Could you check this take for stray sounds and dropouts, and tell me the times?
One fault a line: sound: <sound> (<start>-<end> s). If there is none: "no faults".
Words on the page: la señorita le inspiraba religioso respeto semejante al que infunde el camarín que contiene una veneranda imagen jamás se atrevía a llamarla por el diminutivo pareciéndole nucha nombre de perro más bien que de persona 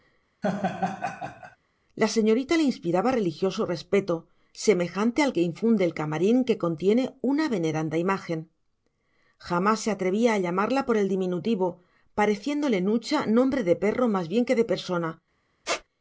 sound: laugh (0.4-1.6 s)
sound: squeak (15.6-15.8 s)